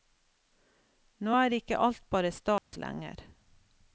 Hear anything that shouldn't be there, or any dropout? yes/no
yes